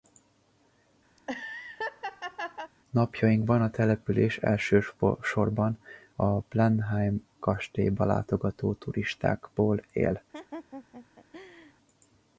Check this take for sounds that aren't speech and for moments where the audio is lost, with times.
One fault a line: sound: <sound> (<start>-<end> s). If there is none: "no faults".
sound: laugh (1.2-2.7 s)
sound: laugh (10.3-11.7 s)